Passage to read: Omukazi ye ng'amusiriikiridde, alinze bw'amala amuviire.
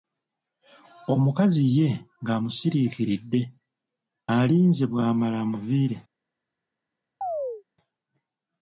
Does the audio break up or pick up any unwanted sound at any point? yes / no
yes